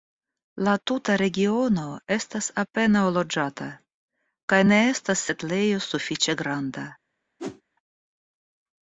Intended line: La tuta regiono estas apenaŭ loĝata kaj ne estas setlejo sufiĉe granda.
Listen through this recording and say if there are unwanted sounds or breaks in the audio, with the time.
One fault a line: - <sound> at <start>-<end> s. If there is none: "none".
- whoosh at 7.4-7.6 s